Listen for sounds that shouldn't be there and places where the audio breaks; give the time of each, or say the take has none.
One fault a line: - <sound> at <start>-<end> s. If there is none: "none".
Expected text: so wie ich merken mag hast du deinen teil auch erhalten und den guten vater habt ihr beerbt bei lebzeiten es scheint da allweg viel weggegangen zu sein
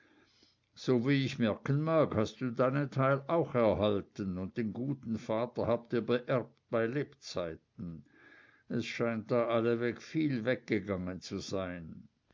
none